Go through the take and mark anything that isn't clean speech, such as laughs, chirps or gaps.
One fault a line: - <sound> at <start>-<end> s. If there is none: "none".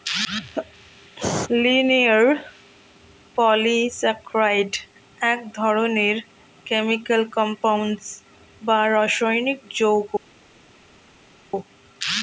none